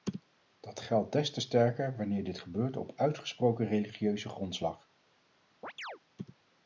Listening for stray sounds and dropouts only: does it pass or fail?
fail